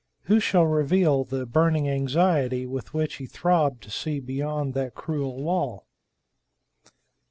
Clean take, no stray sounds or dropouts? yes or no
yes